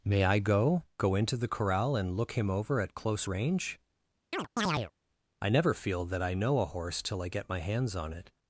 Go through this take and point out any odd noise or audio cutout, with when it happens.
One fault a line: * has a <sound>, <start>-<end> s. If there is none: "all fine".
* has a chirp, 4.3-4.9 s